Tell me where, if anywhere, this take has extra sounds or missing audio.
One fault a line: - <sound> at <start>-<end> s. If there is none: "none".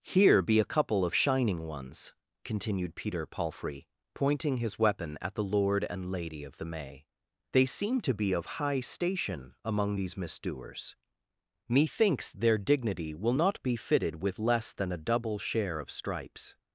none